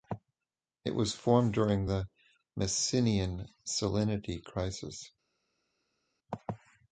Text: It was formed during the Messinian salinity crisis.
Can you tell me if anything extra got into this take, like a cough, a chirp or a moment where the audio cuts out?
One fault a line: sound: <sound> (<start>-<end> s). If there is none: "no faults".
no faults